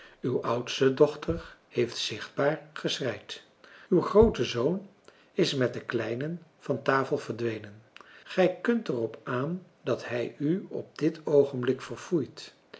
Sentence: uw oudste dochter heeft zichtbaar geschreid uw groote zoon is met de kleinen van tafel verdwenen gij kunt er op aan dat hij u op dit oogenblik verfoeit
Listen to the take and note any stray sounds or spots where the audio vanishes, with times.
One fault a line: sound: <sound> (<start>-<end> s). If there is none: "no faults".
no faults